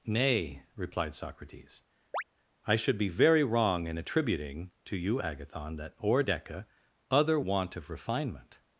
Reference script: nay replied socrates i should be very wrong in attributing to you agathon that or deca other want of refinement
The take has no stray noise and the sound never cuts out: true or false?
false